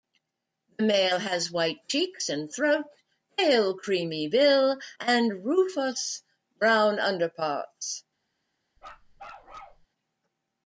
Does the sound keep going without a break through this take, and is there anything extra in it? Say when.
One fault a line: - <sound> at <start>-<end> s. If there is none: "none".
- bark at 8.8-9.9 s